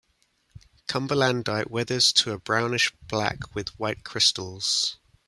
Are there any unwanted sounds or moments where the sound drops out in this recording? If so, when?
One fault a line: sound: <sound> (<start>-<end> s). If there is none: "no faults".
no faults